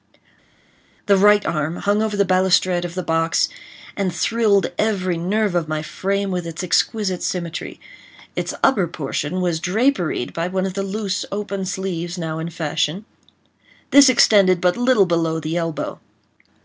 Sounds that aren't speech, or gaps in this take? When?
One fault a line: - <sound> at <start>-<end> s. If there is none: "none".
none